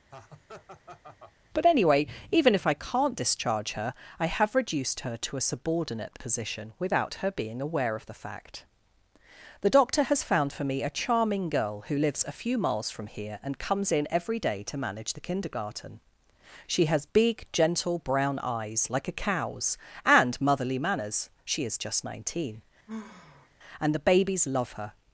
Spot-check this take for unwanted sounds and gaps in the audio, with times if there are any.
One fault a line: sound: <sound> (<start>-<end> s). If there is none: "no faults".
sound: laugh (0.1-1.3 s)
sound: sigh (22.9-23.5 s)